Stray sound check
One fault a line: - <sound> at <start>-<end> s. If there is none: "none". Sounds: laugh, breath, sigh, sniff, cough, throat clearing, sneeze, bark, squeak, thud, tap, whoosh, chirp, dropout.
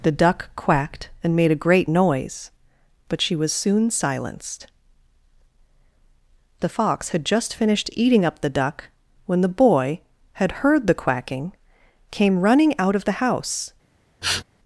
- sniff at 14.2-14.4 s